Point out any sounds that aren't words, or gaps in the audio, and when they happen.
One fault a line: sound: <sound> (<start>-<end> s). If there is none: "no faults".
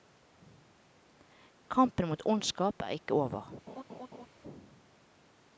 sound: laugh (3.7-4.3 s)